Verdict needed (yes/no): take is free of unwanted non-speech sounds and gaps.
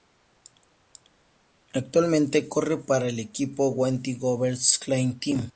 yes